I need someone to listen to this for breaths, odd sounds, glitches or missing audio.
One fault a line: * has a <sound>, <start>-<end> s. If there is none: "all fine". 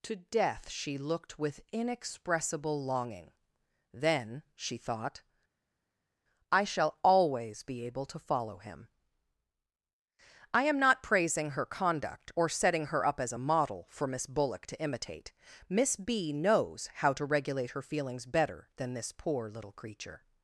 all fine